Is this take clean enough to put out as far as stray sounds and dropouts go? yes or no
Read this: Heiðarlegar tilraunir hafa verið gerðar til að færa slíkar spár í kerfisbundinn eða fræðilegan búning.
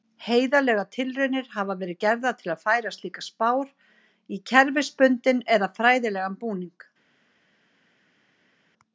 yes